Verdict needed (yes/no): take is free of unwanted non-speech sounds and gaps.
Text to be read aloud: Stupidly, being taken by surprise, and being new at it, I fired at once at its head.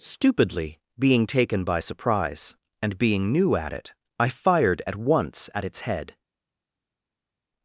yes